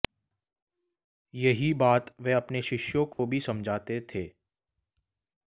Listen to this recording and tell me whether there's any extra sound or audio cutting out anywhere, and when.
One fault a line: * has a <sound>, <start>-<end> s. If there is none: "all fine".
* has a dropout, 3.1-3.2 s